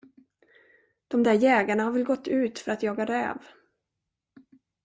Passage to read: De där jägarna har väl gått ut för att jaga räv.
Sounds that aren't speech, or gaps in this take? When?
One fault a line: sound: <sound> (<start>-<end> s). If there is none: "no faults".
no faults